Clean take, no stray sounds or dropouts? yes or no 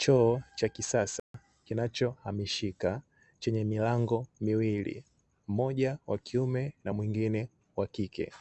no